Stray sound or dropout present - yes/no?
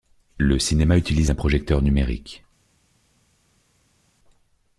no